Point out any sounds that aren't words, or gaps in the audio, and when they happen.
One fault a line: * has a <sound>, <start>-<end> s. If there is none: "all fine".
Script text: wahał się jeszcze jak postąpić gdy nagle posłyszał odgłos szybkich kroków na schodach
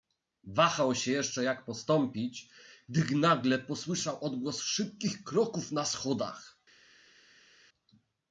all fine